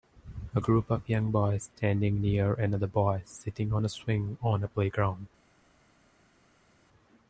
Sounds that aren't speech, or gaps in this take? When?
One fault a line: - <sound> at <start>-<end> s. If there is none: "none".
none